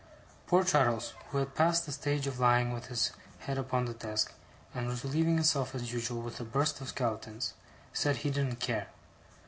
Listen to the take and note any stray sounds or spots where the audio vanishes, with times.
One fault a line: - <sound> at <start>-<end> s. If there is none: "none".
none